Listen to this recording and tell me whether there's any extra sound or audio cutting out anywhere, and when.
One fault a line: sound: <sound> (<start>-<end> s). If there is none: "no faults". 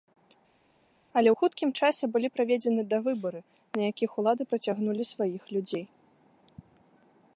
no faults